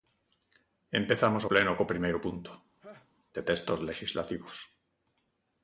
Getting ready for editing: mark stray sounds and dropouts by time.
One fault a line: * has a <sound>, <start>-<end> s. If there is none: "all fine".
* has a laugh, 2.8-3.1 s